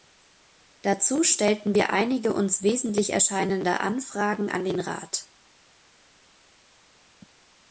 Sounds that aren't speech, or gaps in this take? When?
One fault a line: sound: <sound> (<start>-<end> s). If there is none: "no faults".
no faults